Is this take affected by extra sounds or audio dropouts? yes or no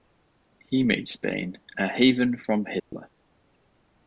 yes